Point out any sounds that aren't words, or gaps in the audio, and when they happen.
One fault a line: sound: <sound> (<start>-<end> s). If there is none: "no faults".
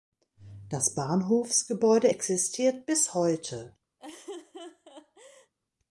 sound: laugh (4.0-5.5 s)